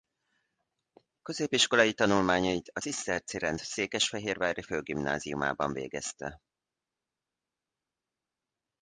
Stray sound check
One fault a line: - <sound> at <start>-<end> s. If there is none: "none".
none